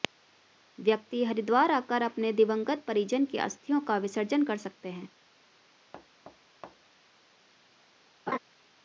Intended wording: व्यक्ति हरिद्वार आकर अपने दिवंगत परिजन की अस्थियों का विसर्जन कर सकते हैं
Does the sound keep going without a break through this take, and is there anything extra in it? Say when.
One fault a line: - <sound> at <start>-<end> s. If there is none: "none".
- thud at 5.9-7.0 s
- laugh at 8.3-8.4 s